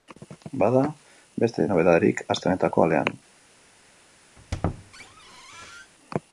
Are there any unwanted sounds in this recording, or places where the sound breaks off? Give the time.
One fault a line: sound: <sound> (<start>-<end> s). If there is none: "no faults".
sound: squeak (4.4-5.9 s)